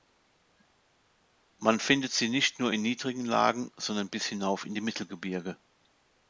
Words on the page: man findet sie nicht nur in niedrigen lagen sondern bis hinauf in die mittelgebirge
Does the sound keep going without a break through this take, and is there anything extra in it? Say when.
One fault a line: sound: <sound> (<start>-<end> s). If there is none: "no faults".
no faults